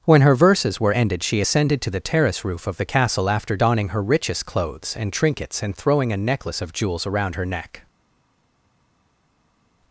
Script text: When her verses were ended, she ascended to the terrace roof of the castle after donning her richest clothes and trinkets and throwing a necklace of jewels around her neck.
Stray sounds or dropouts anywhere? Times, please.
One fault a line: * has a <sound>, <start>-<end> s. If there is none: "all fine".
all fine